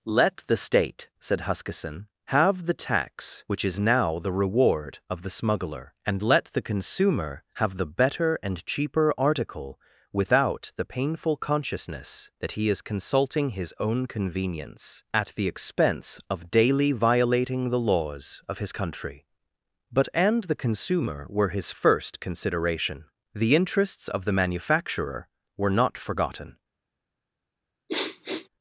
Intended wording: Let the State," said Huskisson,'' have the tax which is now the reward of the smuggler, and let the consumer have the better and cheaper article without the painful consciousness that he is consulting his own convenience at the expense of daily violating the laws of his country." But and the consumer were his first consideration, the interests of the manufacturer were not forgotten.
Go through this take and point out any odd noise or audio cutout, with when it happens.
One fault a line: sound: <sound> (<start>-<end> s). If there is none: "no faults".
sound: sniff (27.9-28.5 s)